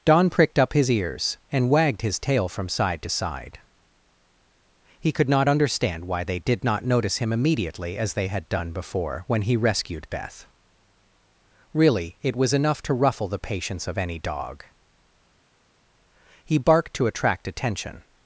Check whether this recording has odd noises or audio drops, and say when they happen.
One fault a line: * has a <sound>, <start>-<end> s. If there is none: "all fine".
all fine